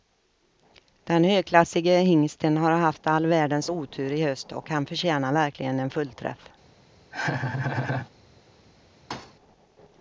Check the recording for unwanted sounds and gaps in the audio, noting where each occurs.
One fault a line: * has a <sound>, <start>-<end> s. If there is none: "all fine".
* has a laugh, 7.1-8.1 s
* has a thud, 9.1-9.4 s